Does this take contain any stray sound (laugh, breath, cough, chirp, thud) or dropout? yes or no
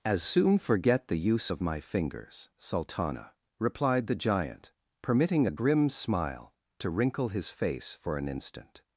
no